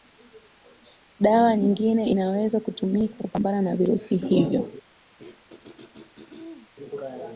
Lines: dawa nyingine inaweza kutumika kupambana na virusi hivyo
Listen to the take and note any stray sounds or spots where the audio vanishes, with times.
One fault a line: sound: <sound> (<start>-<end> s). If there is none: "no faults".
sound: throat clearing (5.2-6.7 s)